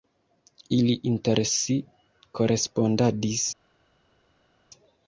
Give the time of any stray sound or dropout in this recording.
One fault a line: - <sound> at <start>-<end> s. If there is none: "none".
none